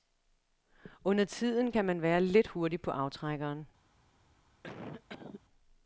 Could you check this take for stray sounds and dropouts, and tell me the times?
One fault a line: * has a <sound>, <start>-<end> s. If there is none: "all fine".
* has a cough, 4.6-5.4 s